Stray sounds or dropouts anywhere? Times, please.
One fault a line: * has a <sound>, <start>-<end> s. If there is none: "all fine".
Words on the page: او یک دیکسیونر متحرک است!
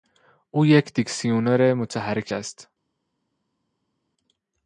all fine